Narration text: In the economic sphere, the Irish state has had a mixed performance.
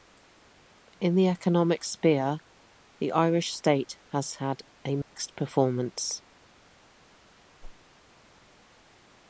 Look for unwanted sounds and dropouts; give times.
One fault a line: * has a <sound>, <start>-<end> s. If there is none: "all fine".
* has a dropout, 5.0-5.1 s
* has a whoosh, 7.6-7.8 s